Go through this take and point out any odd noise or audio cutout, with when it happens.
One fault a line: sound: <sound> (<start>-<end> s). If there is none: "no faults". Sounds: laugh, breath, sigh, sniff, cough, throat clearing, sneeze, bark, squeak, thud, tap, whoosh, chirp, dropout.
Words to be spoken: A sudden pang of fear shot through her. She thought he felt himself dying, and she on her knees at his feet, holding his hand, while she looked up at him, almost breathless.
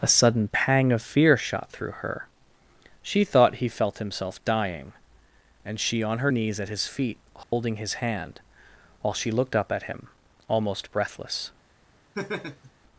sound: dropout (7.4-7.5 s)
sound: laugh (12.1-12.7 s)